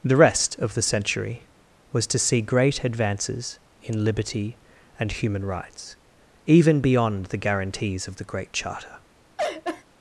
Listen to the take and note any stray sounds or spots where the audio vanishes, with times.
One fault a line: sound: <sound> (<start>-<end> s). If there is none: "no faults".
sound: laugh (9.4-9.8 s)